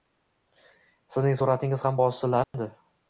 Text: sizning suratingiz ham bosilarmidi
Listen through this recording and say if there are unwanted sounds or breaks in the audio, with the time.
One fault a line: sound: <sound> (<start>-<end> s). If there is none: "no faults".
sound: dropout (2.4-2.5 s)